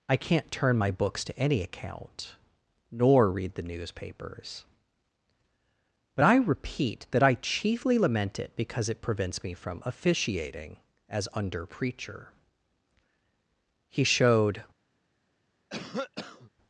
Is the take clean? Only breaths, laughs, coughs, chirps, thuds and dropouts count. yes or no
no